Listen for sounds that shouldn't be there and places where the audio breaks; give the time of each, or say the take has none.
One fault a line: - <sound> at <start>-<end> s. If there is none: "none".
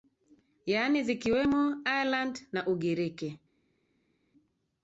none